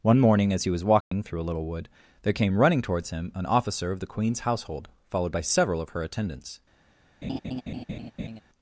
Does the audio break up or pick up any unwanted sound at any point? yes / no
yes